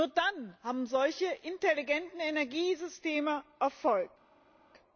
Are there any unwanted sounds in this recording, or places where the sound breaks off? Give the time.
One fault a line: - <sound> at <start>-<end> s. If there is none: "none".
none